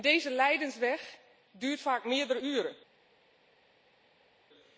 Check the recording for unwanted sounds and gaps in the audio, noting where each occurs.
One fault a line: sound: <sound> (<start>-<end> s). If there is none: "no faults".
no faults